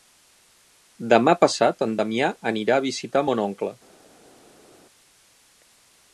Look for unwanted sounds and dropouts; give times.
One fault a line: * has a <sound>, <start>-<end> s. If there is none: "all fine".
all fine